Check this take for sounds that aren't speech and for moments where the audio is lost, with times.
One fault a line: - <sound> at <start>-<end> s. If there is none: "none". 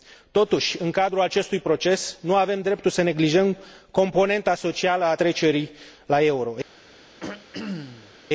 - throat clearing at 7.2-8.1 s